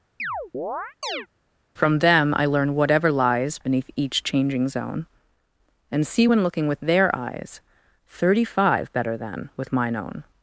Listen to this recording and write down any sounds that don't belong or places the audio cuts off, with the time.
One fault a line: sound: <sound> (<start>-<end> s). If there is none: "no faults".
sound: chirp (0.2-1.3 s)